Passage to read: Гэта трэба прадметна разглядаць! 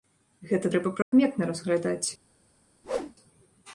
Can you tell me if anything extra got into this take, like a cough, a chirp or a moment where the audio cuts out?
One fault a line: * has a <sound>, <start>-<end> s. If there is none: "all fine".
* has a dropout, 1.0-1.1 s
* has a whoosh, 2.8-3.1 s